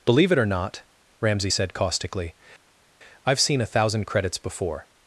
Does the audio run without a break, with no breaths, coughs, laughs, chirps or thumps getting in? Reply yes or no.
yes